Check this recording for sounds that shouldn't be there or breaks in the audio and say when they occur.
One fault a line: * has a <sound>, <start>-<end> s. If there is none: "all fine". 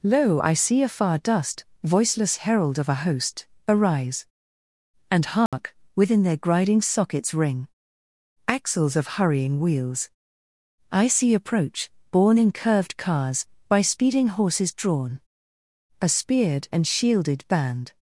* has a dropout, 5.5-5.5 s